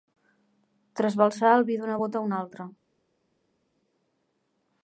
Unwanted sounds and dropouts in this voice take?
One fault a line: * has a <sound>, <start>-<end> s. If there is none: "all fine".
all fine